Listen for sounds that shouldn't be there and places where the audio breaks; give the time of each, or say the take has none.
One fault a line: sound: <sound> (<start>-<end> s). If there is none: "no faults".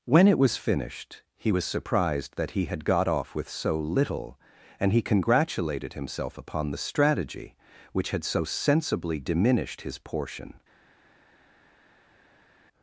no faults